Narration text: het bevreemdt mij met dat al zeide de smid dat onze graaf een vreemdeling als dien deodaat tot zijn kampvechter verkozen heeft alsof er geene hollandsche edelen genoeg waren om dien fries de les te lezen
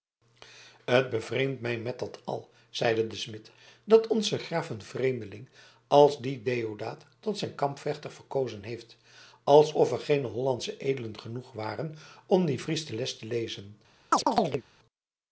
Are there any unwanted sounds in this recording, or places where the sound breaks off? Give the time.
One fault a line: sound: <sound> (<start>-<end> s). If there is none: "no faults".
sound: chirp (14.1-14.6 s)